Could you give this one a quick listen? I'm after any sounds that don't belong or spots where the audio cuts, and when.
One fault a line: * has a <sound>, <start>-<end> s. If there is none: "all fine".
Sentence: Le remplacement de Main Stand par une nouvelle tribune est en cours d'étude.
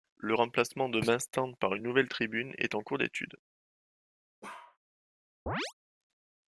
* has a bark, 4.4-4.8 s
* has a chirp, 5.5-5.7 s